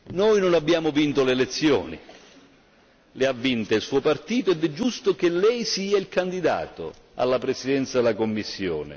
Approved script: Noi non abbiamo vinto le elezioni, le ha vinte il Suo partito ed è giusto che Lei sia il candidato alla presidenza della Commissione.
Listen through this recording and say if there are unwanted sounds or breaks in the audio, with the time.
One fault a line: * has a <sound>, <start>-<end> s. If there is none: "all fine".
all fine